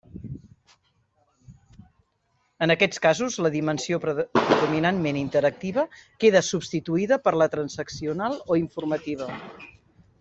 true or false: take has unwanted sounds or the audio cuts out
false